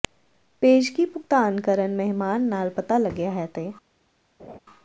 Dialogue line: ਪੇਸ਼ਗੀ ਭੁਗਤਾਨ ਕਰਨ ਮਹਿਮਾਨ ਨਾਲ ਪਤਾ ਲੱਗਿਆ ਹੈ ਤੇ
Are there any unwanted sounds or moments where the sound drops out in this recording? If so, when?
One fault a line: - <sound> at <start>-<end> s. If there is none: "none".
- laugh at 4.4-4.6 s